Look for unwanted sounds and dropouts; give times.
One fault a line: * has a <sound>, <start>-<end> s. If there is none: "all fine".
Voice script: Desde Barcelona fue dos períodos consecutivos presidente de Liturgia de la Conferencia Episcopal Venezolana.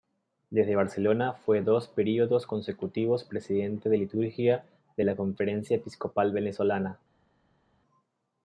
all fine